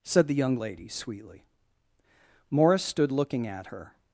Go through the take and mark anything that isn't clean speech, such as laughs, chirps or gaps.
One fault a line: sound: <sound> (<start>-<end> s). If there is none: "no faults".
no faults